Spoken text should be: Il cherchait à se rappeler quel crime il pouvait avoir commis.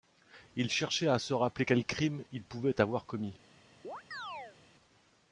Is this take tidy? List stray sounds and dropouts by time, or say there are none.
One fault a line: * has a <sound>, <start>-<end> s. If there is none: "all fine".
* has a chirp, 3.8-4.6 s